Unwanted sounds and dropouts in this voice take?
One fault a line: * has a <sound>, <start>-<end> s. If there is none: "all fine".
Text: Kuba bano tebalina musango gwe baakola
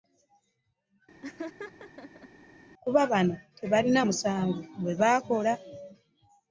* has a laugh, 1.2-2.3 s